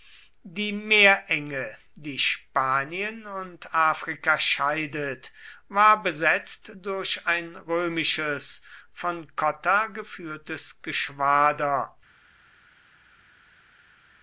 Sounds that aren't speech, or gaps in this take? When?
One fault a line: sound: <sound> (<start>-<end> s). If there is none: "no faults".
no faults